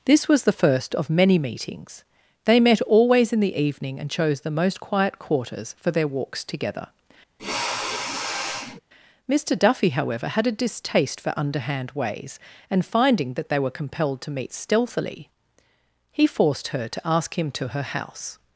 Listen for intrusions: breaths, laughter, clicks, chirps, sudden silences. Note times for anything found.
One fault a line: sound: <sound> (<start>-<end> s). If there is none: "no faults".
sound: sniff (7.4-8.8 s)